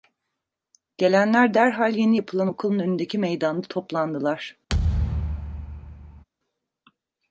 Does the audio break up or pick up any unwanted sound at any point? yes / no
yes